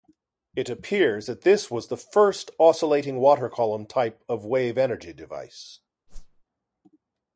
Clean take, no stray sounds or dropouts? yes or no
no